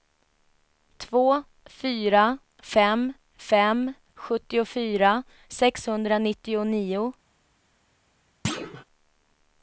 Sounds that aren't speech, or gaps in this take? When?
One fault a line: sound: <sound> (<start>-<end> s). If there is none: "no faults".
sound: thud (8.4-8.8 s)